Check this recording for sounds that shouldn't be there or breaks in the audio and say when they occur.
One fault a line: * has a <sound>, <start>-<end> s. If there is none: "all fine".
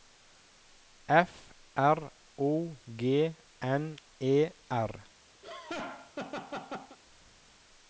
* has a laugh, 5.4-7.0 s